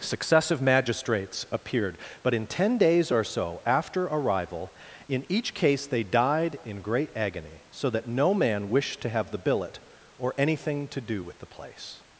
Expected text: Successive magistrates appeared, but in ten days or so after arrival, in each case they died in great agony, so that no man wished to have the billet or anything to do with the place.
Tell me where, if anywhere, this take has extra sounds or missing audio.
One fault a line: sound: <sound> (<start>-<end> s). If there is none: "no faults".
no faults